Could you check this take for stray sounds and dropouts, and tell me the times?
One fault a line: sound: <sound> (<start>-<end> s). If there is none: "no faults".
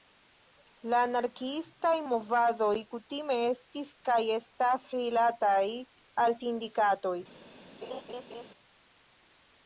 sound: laugh (7.8-8.5 s)